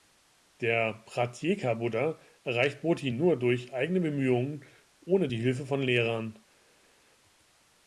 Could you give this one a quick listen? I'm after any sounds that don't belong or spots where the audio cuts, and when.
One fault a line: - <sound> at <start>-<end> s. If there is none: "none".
none